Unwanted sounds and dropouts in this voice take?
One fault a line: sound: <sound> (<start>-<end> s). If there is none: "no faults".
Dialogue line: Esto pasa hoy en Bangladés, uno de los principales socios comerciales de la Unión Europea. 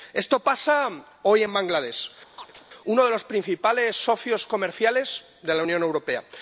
sound: chirp (2.4-2.6 s)